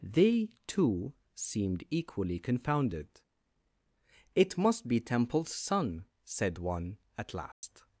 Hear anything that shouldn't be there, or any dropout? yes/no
yes